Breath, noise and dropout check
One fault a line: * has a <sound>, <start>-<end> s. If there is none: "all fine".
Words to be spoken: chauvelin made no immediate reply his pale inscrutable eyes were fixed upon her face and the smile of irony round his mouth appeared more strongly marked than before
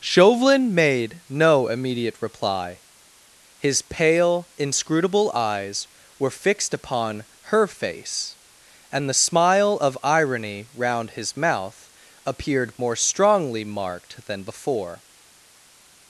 all fine